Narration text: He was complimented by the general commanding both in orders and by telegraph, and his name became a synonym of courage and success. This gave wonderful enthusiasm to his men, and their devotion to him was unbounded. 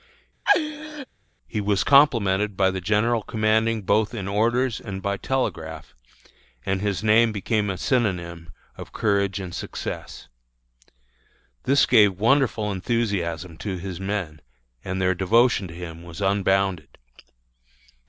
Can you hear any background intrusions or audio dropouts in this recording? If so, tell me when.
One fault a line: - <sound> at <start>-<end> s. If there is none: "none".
- laugh at 0.5-1.1 s